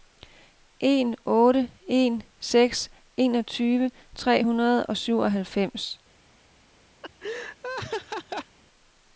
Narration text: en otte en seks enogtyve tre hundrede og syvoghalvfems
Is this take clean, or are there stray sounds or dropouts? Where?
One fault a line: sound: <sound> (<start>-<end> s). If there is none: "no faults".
sound: laugh (7.0-8.6 s)